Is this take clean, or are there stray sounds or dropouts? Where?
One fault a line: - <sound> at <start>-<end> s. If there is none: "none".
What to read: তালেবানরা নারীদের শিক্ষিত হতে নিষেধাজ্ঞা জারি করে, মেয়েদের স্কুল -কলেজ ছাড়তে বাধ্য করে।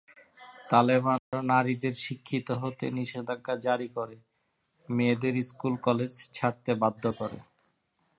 - dropout at 1.2-1.3 s